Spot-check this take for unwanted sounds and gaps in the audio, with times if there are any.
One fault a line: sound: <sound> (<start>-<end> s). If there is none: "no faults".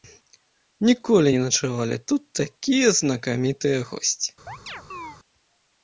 sound: chirp (4.5-5.2 s)